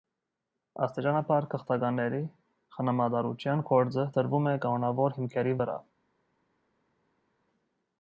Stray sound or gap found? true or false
false